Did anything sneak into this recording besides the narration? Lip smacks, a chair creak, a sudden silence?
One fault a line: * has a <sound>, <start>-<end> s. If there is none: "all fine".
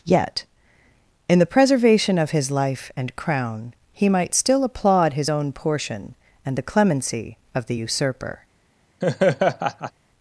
* has a laugh, 9.0-9.9 s